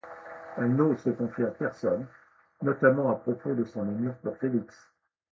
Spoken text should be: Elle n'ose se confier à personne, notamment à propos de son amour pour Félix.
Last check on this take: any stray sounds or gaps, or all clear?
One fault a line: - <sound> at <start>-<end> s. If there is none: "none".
none